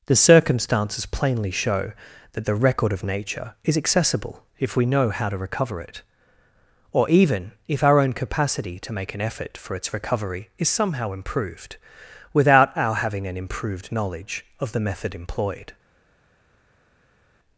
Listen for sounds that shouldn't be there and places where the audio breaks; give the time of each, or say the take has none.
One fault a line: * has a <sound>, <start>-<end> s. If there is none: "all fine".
all fine